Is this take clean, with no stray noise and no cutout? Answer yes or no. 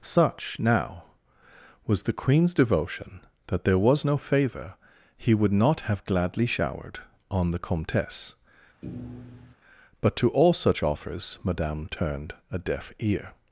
no